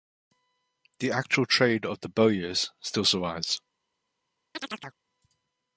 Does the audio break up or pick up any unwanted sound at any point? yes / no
yes